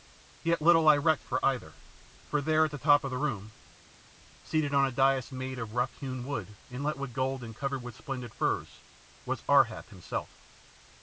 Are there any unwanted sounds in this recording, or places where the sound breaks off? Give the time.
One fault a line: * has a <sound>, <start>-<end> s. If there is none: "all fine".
all fine